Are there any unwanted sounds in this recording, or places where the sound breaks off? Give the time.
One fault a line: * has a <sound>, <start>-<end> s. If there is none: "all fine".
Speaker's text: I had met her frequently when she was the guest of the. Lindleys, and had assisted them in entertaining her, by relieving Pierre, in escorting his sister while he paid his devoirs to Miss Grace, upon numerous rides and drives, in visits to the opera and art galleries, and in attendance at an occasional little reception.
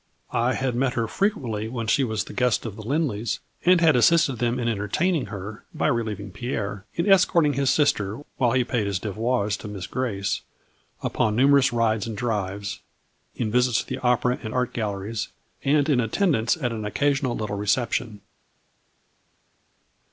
all fine